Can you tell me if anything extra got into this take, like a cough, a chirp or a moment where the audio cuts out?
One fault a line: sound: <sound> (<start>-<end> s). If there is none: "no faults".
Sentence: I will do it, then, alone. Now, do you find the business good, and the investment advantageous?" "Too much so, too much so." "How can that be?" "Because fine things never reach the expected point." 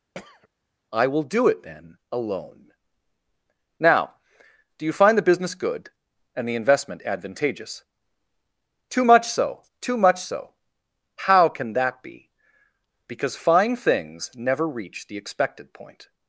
sound: throat clearing (0.1-0.5 s)